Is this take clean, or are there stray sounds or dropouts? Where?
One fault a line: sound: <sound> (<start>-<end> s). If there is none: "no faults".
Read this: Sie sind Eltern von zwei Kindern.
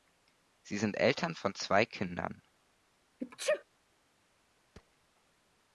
sound: sneeze (3.2-3.6 s)
sound: thud (4.7-5.0 s)